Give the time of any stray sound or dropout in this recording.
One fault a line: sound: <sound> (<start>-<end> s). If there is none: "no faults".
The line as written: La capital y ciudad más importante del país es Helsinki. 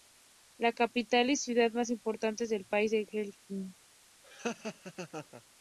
sound: laugh (4.2-5.4 s)